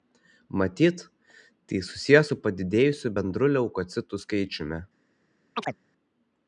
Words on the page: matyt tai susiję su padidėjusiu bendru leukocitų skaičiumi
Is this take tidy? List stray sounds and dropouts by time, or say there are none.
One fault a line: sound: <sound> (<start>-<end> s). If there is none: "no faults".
sound: chirp (5.6-5.8 s)